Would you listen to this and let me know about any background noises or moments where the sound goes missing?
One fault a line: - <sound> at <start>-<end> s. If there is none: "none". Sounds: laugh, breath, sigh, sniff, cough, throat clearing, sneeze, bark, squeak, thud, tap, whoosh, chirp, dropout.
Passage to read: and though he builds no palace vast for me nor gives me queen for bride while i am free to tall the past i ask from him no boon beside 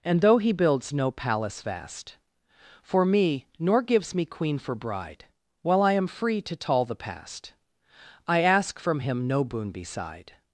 none